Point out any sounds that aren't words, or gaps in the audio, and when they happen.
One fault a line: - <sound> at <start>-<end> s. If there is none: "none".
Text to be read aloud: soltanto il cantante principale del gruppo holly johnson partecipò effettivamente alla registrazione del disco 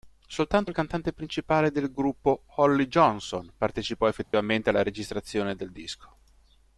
- dropout at 4.2-4.3 s